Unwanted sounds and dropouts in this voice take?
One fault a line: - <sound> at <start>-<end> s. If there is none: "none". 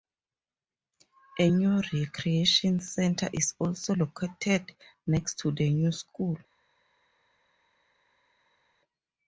none